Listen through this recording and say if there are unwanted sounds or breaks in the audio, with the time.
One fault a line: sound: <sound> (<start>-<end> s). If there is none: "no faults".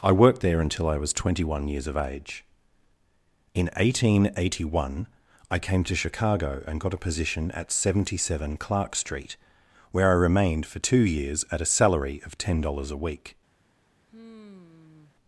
sound: sigh (14.1-15.2 s)